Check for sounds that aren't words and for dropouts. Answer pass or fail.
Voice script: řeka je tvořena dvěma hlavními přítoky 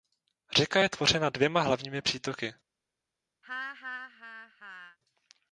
fail